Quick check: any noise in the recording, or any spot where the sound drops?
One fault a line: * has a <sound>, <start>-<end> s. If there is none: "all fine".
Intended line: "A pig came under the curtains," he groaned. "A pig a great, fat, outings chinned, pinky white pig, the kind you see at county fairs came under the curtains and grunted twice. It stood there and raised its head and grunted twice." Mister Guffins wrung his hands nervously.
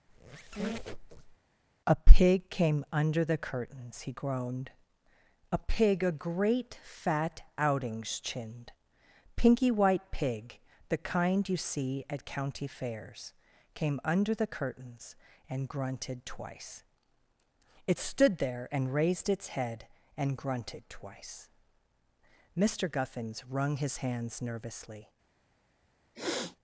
* has a squeak, 0.1-1.4 s
* has a sniff, 26.1-26.6 s